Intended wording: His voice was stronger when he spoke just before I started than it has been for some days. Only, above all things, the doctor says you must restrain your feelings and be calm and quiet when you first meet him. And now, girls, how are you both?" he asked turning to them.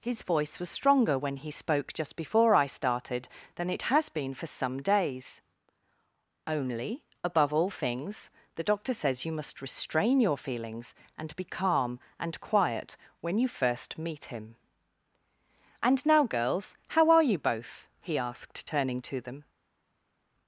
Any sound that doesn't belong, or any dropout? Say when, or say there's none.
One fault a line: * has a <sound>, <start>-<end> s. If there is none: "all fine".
all fine